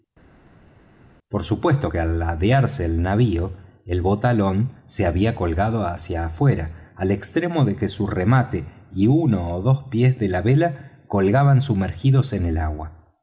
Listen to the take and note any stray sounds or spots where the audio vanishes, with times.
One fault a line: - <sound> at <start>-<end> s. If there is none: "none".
none